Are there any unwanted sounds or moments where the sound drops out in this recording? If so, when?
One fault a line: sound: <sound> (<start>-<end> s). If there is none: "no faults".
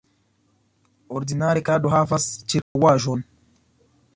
sound: dropout (2.6-2.8 s)